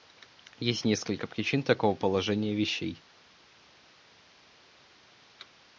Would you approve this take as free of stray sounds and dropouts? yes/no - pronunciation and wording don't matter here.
yes